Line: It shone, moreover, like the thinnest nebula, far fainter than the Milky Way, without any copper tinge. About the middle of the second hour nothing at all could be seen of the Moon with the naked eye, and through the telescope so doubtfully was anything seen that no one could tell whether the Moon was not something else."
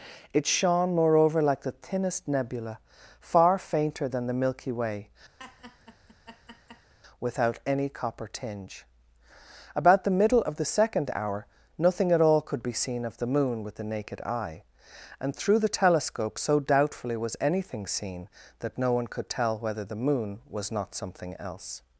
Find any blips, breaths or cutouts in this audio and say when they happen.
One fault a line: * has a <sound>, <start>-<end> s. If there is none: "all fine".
* has a laugh, 5.4-6.9 s